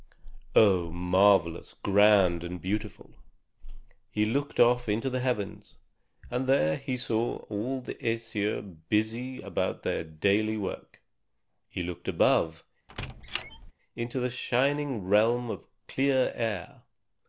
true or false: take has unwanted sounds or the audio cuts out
true